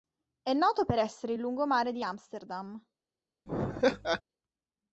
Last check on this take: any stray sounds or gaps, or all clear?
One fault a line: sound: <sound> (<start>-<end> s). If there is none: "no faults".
sound: laugh (3.5-4.2 s)